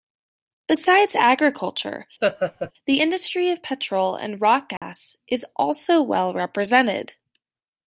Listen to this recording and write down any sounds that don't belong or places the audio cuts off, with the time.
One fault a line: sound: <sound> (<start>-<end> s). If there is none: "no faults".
sound: laugh (2.2-2.7 s)
sound: dropout (4.8-4.8 s)